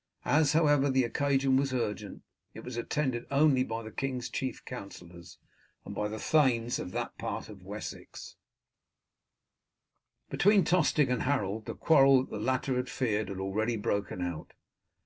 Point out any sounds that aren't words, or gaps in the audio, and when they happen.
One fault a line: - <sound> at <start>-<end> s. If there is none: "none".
none